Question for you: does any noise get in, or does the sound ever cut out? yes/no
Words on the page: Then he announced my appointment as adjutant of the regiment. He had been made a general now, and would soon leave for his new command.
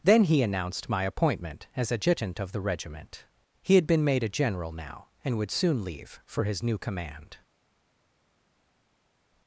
no